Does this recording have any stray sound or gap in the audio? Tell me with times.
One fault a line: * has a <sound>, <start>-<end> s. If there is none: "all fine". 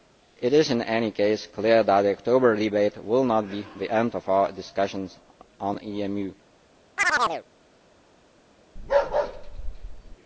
* has a chirp, 7.0-7.4 s
* has a bark, 8.8-10.2 s